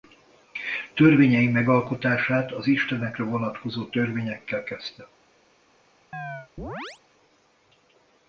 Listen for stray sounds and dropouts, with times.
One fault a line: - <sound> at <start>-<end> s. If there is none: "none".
- chirp at 6.1-7.0 s